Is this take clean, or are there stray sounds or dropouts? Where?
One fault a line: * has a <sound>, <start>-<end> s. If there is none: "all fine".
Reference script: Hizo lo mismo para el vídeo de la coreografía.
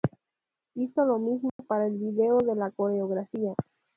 * has a dropout, 1.5-1.6 s